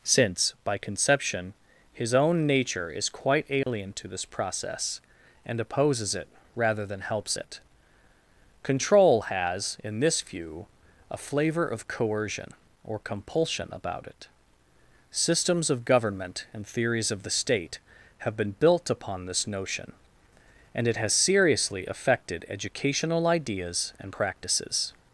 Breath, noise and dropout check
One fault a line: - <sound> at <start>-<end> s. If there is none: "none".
- dropout at 3.6-3.7 s